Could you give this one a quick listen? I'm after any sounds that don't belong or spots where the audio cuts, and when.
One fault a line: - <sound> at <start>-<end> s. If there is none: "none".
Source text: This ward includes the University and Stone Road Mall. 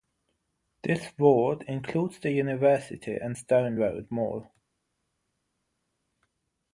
none